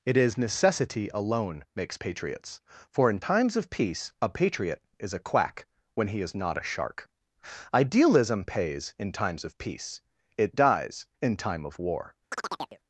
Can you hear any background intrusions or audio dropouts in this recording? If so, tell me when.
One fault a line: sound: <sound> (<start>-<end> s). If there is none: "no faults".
sound: chirp (12.3-12.8 s)